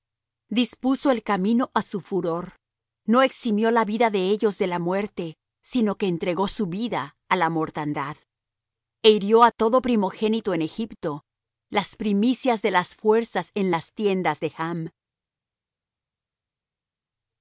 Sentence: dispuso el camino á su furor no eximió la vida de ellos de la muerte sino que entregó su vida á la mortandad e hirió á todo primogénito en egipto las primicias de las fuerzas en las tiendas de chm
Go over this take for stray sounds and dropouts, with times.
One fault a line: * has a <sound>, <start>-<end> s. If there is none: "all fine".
all fine